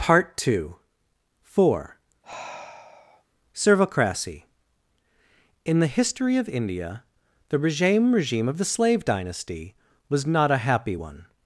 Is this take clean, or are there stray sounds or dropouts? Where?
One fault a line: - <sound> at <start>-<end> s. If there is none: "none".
- sigh at 2.2-3.2 s